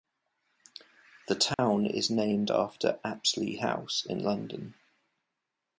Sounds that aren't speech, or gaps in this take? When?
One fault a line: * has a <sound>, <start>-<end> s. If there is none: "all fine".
* has a dropout, 1.5-1.6 s